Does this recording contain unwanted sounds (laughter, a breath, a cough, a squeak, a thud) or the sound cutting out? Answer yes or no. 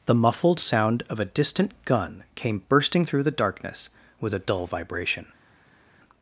no